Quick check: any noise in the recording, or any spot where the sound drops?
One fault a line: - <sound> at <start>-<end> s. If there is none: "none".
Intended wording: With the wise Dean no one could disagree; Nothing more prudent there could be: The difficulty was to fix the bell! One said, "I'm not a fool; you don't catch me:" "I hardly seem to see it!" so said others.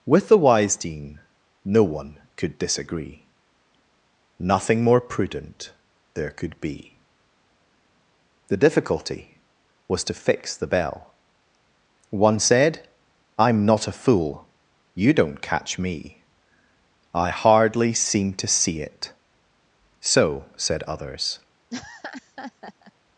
- laugh at 21.7-22.9 s